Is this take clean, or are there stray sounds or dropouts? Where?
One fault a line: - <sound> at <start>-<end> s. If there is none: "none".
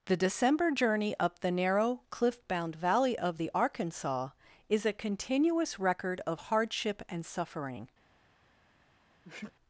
- sneeze at 9.2-9.5 s